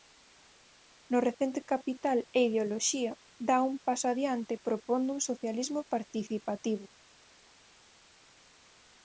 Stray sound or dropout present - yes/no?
no